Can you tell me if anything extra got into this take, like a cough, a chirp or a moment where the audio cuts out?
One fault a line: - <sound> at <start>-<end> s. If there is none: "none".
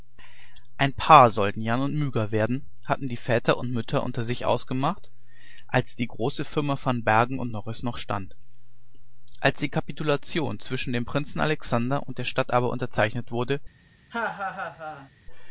- laugh at 14.1-15.1 s